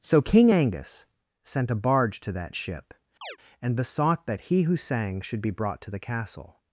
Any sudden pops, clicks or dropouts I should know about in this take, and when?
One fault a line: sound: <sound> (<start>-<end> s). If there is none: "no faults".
sound: chirp (3.2-3.4 s)